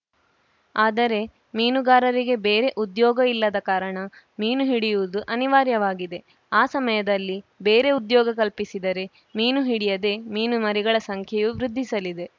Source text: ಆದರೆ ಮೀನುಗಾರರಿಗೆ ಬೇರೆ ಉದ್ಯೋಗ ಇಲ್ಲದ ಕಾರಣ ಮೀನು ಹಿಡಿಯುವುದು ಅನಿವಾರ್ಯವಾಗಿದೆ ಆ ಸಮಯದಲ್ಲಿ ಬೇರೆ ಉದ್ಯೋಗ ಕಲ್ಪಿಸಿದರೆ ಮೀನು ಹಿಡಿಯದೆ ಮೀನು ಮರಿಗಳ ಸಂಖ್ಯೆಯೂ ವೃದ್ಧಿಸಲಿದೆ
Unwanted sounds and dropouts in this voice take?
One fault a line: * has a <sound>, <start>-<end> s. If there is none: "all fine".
all fine